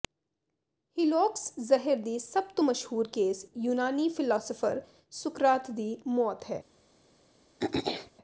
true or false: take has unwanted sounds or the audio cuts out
true